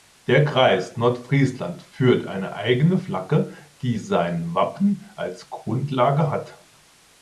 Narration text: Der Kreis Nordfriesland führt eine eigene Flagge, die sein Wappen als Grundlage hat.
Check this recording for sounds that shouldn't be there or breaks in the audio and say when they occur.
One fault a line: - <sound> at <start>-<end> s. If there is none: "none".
none